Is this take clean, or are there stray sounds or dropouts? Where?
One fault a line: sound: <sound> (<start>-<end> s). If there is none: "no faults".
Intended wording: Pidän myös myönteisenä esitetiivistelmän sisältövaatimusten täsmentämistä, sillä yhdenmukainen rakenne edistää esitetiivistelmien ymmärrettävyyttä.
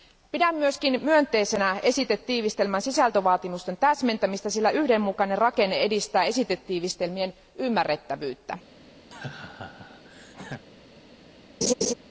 sound: laugh (9.1-10.6 s)
sound: laugh (11.6-11.9 s)